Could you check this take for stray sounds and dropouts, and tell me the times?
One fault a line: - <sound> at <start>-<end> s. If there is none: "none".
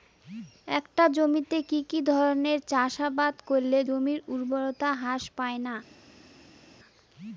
none